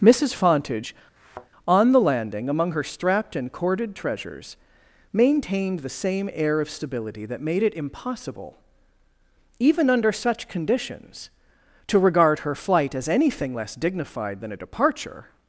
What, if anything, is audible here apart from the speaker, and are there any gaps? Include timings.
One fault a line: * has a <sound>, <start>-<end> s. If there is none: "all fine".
* has a thud, 1.2-1.5 s